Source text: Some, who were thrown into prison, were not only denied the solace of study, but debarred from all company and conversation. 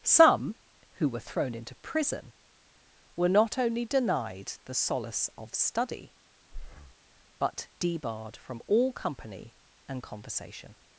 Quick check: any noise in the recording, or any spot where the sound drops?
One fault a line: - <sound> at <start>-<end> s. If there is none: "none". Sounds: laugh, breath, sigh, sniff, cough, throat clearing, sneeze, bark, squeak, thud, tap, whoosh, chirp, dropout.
- breath at 6.5-7.0 s